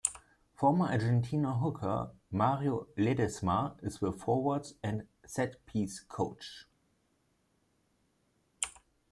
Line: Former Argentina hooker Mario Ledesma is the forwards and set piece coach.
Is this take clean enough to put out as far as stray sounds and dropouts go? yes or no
yes